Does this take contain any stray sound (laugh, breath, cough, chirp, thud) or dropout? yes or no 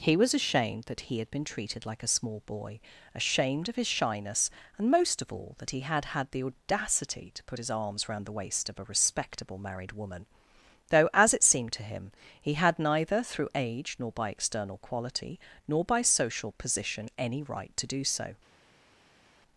no